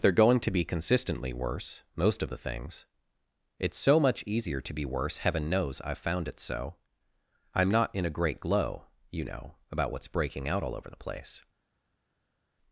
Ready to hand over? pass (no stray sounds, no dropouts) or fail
pass